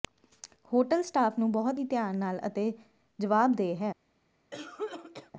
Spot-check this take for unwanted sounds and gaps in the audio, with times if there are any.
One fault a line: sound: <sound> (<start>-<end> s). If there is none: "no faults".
sound: cough (4.5-5.3 s)